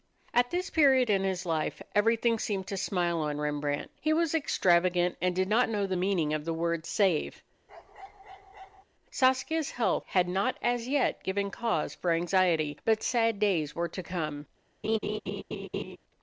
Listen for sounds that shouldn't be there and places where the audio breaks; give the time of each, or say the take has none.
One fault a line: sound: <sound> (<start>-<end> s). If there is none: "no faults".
sound: bark (7.7-8.8 s)
sound: laugh (14.8-16.0 s)